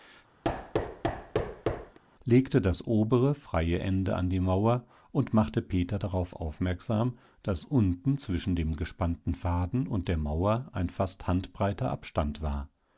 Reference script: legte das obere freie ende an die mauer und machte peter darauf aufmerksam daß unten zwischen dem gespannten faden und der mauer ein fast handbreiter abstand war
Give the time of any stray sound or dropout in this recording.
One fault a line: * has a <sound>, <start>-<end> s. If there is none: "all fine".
* has a thud, 0.4-2.0 s